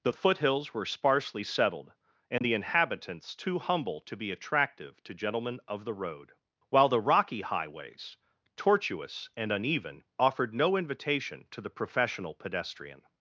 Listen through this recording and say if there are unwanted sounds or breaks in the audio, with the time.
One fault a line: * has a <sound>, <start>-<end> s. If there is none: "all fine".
* has a dropout, 2.4-2.4 s